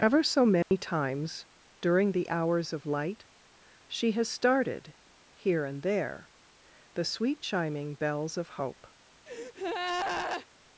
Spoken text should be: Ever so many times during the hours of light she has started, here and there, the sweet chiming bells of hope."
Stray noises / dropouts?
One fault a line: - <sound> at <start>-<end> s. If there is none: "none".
- dropout at 0.6-0.7 s
- breath at 9.3-10.5 s